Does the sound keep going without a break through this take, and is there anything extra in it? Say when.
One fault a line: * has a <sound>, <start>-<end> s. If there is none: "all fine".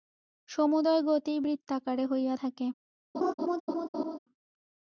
* has a laugh, 3.1-4.2 s